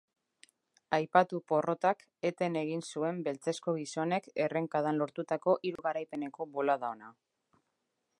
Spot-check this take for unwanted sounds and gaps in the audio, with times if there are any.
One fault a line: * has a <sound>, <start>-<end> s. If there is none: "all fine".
* has a dropout, 5.8-5.8 s